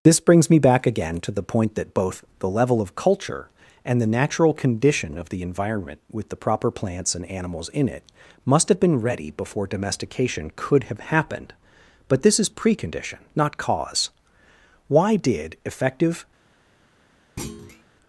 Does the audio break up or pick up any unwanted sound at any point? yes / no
yes